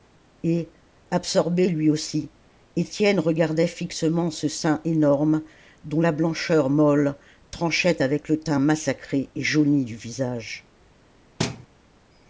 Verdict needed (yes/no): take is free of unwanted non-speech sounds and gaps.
no